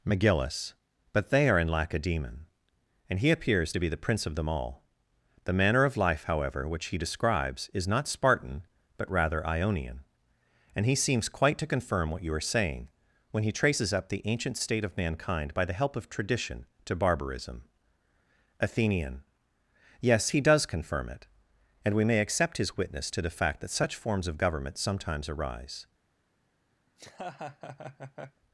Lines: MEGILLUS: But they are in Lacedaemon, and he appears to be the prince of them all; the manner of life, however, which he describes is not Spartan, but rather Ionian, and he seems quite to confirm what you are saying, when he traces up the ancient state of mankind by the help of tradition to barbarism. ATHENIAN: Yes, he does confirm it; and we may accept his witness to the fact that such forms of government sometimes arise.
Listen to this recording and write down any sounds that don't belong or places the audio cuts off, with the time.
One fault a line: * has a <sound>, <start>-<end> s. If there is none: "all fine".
* has a laugh, 26.9-28.4 s